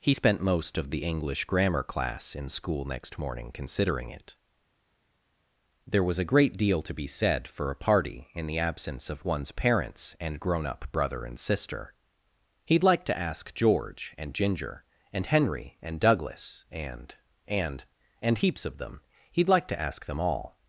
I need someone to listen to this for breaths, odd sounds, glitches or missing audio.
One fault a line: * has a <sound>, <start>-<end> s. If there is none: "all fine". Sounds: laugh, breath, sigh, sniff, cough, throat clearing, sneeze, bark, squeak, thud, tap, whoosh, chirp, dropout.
all fine